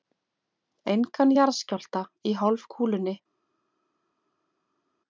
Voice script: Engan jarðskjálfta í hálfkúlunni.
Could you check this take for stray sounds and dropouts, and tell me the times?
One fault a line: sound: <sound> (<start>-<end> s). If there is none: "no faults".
no faults